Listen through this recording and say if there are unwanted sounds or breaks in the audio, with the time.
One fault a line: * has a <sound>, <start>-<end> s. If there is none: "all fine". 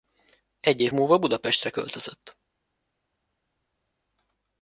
all fine